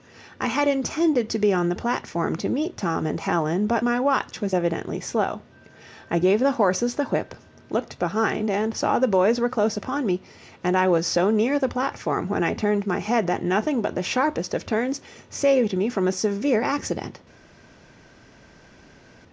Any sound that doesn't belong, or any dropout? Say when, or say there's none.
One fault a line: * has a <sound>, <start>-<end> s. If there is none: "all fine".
all fine